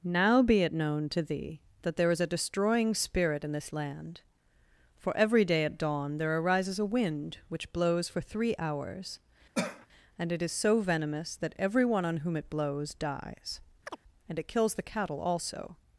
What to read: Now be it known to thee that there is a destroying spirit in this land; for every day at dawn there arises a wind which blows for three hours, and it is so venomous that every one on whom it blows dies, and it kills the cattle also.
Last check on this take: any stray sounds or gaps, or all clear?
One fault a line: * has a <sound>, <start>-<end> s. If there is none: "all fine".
* has a cough, 9.5-9.9 s
* has a chirp, 13.9-14.0 s